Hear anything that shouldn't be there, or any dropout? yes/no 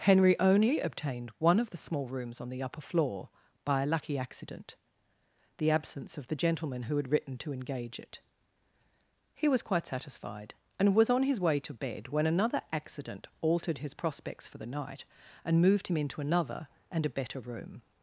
no